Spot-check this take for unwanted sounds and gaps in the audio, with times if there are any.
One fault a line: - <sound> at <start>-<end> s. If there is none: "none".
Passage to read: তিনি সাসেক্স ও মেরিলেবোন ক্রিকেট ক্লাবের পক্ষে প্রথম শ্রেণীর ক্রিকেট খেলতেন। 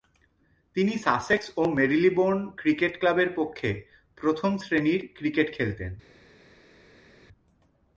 none